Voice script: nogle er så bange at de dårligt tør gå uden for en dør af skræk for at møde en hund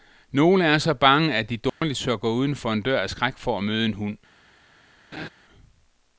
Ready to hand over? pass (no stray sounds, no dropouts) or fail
fail